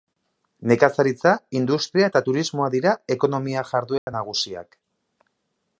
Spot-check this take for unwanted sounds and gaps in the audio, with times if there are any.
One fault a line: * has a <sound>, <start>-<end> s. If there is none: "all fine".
* has a dropout, 4.0-4.1 s